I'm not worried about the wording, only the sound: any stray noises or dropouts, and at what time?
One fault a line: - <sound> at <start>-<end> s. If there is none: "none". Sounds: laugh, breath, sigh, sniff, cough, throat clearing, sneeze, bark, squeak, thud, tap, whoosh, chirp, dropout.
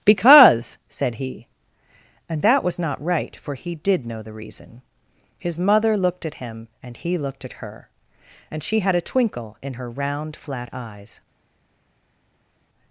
none